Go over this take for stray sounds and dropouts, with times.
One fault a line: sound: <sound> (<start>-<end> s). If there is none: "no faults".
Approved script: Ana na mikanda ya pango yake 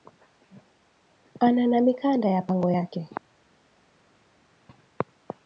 no faults